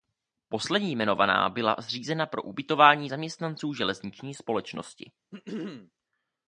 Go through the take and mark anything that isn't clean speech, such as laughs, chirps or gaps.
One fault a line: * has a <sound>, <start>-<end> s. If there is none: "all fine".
* has a throat clearing, 5.3-5.9 s